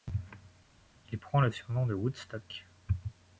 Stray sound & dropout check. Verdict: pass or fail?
pass